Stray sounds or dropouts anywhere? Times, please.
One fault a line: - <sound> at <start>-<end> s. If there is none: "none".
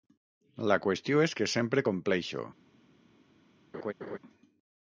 - laugh at 3.7-4.2 s